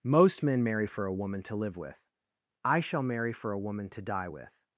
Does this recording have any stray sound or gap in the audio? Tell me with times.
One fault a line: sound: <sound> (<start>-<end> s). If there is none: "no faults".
no faults